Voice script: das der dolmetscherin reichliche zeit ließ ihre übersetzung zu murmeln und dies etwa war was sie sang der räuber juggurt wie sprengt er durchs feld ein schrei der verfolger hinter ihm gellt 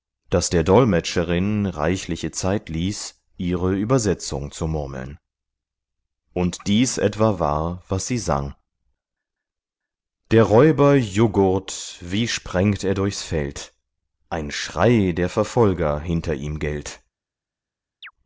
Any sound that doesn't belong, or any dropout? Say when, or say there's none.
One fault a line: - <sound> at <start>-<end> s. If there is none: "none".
- chirp at 18.0-18.1 s